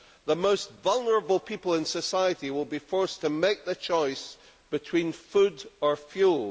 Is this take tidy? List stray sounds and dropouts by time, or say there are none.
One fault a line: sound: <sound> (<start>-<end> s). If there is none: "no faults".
no faults